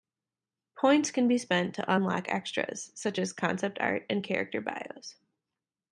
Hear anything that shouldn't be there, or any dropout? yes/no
no